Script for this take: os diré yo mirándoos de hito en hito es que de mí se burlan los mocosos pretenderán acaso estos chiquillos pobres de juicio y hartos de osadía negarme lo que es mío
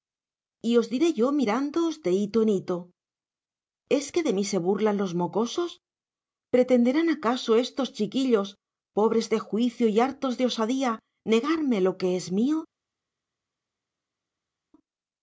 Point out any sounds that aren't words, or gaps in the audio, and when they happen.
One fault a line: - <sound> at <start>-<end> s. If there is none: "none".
none